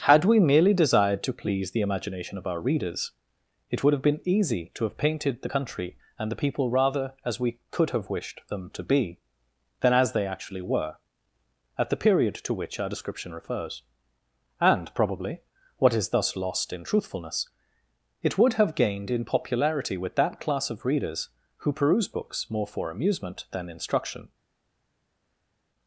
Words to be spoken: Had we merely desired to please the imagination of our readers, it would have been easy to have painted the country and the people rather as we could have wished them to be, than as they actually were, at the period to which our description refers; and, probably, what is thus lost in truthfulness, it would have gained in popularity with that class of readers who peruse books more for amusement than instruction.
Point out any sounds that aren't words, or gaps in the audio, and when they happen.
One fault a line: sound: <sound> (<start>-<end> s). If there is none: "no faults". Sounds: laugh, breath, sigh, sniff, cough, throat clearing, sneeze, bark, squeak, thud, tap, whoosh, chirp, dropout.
no faults